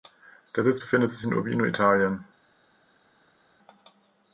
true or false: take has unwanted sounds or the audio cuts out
false